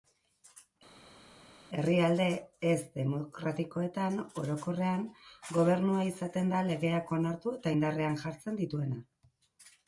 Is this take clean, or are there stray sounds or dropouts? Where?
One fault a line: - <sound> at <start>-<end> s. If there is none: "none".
none